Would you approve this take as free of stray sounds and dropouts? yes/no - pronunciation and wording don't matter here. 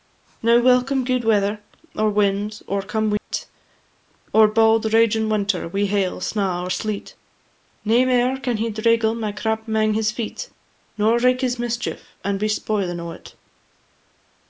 no